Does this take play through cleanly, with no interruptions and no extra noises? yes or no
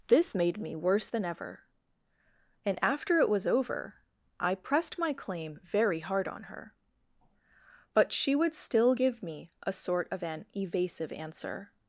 yes